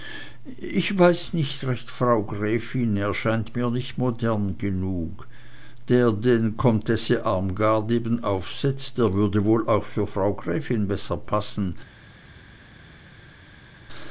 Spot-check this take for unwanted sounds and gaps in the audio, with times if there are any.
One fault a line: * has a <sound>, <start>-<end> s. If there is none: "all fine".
all fine